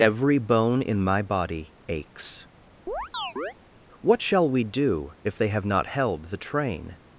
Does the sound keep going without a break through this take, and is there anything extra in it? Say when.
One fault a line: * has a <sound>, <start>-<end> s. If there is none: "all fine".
* has a chirp, 2.9-3.5 s